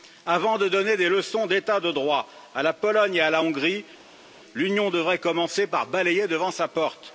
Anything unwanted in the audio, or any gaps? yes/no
no